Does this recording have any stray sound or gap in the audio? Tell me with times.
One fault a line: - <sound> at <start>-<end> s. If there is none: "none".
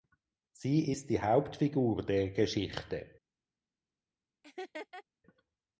- laugh at 4.4-5.0 s